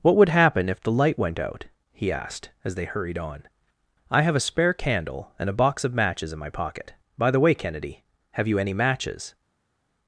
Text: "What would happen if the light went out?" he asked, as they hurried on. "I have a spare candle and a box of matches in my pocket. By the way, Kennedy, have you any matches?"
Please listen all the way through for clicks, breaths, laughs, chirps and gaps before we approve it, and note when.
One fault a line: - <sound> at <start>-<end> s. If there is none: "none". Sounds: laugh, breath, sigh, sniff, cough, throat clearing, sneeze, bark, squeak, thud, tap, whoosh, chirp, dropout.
none